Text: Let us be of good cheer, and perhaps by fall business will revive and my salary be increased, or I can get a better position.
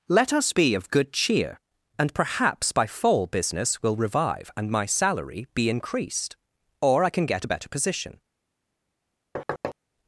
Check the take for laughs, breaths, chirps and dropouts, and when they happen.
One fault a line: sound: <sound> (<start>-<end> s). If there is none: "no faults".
sound: thud (9.4-9.8 s)